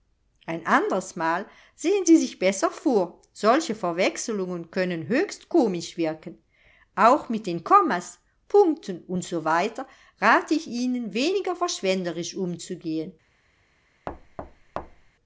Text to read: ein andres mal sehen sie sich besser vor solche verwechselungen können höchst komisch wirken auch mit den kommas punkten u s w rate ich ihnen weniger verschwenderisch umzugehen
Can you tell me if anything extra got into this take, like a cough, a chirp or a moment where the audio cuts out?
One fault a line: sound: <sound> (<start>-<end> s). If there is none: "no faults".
sound: thud (14.1-15.1 s)